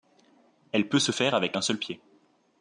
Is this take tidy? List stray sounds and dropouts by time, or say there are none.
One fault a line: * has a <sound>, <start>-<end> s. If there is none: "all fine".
all fine